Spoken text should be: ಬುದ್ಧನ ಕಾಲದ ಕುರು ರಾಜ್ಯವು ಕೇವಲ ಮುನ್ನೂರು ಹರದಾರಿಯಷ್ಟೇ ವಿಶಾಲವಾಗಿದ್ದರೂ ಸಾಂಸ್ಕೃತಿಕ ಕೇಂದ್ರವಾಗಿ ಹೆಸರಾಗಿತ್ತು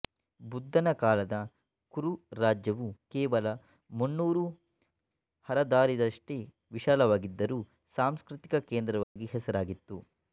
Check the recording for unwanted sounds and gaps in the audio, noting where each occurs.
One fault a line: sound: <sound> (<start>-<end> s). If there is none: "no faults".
sound: dropout (9.0-9.2 s)